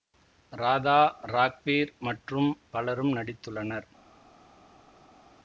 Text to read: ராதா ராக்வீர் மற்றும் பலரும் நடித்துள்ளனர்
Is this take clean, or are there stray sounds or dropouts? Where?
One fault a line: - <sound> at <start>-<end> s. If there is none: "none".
none